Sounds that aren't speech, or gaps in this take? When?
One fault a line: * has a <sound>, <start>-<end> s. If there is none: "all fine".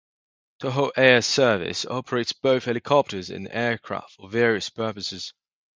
all fine